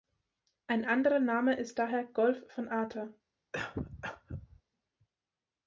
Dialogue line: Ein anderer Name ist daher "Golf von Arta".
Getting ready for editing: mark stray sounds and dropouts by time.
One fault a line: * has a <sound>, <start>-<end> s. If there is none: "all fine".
* has a cough, 3.5-4.6 s